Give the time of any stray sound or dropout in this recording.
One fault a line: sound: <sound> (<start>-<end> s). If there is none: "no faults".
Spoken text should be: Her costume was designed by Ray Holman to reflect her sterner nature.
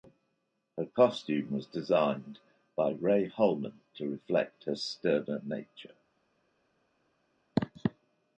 no faults